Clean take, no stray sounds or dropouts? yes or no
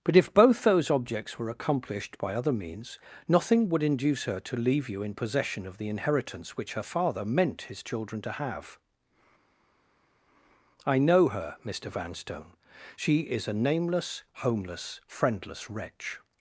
yes